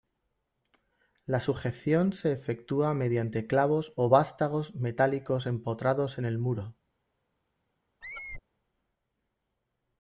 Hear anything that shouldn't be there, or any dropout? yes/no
yes